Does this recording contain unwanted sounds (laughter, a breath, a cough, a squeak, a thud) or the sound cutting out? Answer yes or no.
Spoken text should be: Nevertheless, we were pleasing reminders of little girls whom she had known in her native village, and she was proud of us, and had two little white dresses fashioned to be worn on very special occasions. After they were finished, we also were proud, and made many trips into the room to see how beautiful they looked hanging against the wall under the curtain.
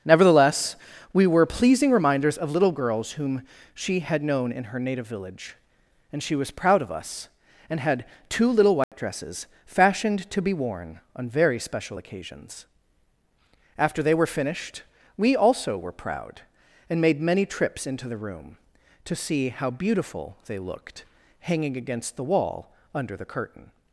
yes